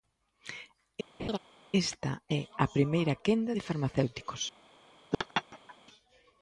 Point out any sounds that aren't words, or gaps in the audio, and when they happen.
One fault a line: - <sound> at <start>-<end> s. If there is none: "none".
- laugh at 1.2-1.4 s
- laugh at 5.1-5.8 s